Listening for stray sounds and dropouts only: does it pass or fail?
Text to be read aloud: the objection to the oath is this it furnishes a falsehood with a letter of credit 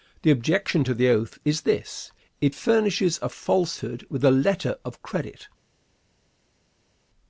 pass